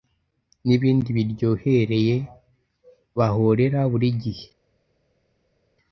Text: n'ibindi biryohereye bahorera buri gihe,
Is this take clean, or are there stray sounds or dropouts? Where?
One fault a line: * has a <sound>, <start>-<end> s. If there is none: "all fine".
all fine